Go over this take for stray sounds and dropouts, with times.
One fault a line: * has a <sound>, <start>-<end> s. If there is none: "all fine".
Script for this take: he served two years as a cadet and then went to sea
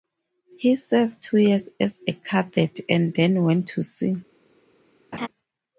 * has a laugh, 5.1-5.3 s